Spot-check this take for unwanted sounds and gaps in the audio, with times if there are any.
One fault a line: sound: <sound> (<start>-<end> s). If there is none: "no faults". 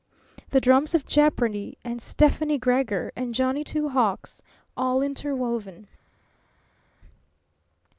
no faults